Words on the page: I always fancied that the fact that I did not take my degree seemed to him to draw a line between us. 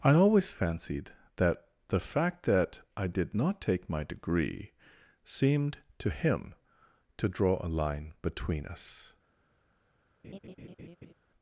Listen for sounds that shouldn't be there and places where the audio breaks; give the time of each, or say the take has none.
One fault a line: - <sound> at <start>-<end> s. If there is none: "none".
- laugh at 10.2-11.1 s